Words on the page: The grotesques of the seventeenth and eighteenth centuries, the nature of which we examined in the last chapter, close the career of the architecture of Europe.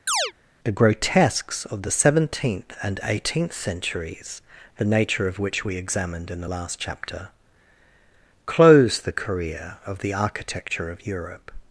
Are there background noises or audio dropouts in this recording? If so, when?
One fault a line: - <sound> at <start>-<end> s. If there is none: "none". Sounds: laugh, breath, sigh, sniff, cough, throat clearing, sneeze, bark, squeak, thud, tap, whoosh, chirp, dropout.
- chirp at 0.1-0.3 s